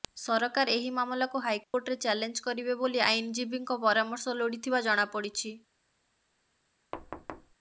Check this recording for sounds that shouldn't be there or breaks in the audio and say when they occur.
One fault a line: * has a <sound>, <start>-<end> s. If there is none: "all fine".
* has a dropout, 1.6-1.7 s
* has a thud, 6.9-7.6 s